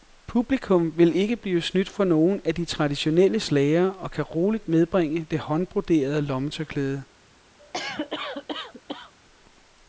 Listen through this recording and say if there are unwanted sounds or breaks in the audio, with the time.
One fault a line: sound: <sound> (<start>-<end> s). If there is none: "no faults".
sound: cough (7.6-9.1 s)